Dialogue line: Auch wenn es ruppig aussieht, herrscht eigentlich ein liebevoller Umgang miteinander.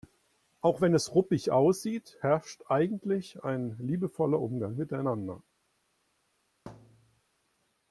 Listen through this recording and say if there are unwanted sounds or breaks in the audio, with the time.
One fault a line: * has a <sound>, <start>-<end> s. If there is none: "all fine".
* has a thud, 6.7-7.2 s